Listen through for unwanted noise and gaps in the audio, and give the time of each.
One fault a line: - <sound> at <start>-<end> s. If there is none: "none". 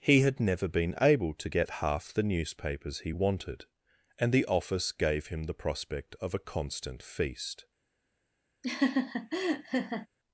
- laugh at 8.6-10.1 s